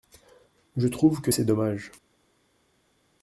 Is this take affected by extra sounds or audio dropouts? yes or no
no